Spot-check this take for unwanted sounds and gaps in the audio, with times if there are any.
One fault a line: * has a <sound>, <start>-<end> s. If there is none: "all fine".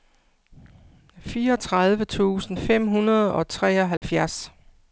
* has a dropout, 4.0-4.0 s